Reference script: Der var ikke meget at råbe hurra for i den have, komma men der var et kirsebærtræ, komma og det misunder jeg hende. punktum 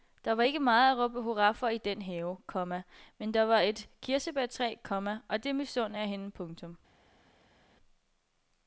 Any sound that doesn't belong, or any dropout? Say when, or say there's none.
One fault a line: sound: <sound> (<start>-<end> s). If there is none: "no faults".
no faults